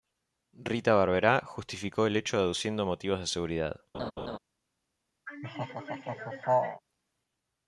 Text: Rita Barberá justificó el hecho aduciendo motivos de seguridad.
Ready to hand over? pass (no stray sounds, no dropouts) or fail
fail